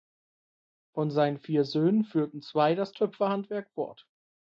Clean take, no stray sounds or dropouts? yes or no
yes